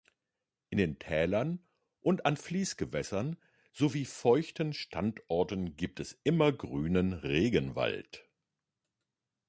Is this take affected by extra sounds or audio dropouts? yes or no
no